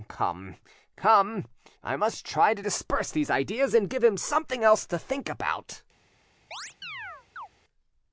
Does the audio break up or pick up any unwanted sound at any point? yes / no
yes